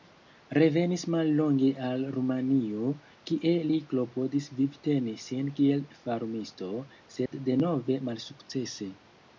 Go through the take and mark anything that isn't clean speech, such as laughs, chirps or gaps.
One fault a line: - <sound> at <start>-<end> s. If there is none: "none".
- dropout at 7.3-7.3 s